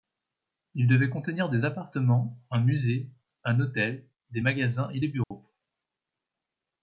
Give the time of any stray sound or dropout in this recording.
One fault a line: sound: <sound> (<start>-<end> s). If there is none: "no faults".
sound: dropout (5.2-5.3 s)